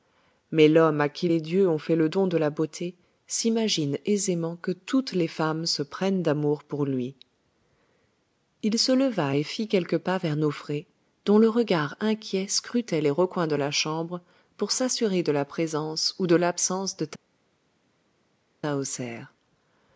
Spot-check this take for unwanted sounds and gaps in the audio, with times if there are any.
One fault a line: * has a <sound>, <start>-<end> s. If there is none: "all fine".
all fine